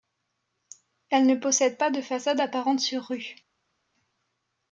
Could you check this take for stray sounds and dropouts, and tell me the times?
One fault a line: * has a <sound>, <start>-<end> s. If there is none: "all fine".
all fine